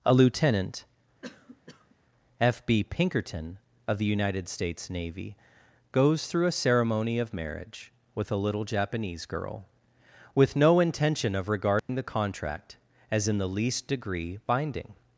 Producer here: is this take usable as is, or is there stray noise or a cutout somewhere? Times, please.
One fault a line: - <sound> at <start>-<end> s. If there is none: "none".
- cough at 1.2-2.0 s
- dropout at 11.8-11.9 s